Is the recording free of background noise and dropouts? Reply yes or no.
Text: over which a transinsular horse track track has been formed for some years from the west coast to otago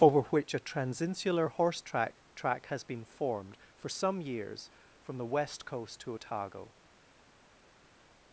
yes